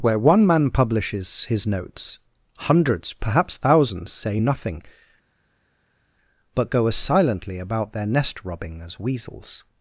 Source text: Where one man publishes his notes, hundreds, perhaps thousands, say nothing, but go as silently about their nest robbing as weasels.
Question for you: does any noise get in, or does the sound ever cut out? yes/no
no